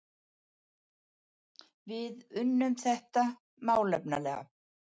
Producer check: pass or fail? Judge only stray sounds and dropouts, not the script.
pass